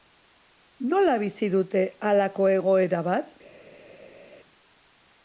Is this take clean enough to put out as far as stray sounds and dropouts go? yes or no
yes